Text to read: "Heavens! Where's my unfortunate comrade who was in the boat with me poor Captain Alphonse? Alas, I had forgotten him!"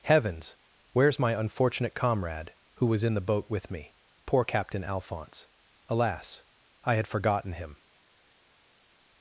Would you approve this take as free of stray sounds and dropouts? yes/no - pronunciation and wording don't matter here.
yes